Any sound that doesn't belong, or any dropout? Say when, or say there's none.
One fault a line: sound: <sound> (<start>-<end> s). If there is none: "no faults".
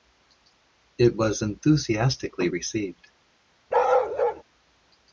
sound: bark (3.7-4.4 s)